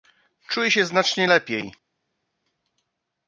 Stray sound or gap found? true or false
false